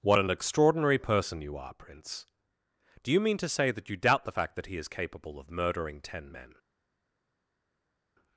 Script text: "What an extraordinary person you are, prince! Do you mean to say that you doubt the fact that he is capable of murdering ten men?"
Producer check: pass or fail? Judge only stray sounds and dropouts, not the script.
pass